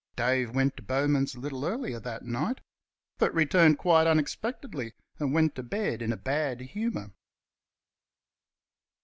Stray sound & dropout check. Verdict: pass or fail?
pass